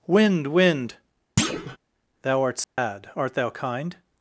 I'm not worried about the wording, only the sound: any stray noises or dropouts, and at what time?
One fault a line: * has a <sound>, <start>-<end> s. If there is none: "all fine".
* has a thud, 1.4-1.8 s
* has a dropout, 2.6-2.8 s